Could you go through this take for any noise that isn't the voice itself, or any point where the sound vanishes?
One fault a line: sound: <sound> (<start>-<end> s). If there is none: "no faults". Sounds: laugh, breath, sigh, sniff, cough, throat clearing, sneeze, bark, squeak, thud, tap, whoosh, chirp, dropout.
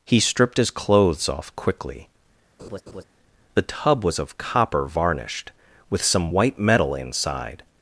sound: laugh (2.6-3.0 s)